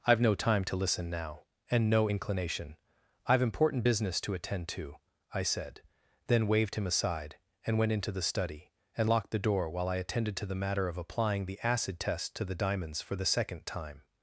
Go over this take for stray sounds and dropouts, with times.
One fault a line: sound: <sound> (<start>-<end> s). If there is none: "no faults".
no faults